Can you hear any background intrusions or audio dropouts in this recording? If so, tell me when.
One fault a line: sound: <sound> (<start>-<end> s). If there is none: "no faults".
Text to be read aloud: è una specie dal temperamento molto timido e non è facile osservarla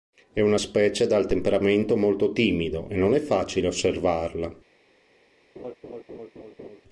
sound: laugh (5.6-6.8 s)